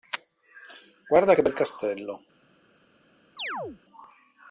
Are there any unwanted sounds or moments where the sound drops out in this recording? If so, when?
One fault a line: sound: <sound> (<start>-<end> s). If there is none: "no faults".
sound: chirp (3.4-3.8 s)